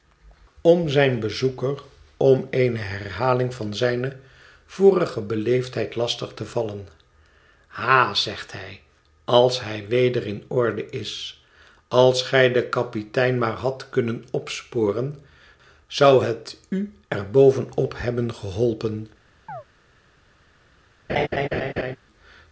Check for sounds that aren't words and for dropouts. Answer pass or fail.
fail